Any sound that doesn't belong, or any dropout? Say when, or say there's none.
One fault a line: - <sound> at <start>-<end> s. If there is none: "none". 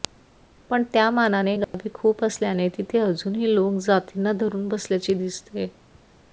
- dropout at 1.6-1.7 s